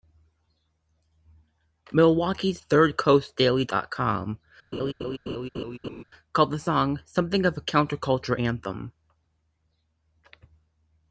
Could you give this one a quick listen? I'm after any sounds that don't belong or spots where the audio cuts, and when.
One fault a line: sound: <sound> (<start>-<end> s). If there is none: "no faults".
sound: laugh (4.7-6.0 s)